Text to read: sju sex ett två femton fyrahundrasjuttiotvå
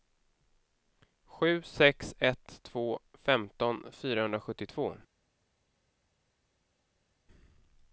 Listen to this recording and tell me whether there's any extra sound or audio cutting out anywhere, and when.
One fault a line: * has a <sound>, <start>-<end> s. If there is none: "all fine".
all fine